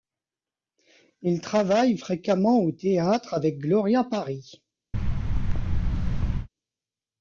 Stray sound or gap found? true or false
true